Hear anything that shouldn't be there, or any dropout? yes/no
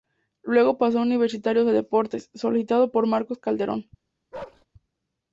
yes